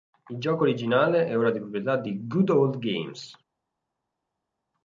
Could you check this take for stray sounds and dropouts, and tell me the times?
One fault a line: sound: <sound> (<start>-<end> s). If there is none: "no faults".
no faults